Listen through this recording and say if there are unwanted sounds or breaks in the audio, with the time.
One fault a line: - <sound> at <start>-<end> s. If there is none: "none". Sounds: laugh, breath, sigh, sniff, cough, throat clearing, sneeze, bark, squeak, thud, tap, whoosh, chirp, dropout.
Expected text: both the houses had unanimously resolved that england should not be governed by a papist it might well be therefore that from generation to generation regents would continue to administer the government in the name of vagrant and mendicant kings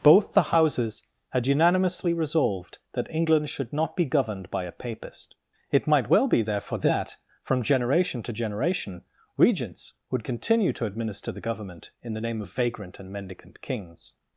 none